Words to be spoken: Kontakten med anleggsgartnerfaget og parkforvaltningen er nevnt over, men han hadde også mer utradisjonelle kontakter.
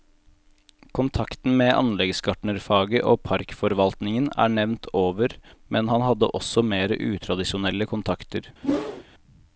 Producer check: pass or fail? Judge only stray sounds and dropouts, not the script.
fail